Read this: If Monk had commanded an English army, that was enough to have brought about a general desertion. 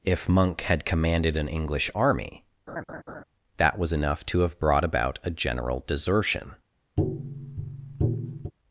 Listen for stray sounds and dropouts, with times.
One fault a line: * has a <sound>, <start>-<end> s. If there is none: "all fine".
* has a laugh, 2.7-3.2 s
* has a tap, 7.0-8.5 s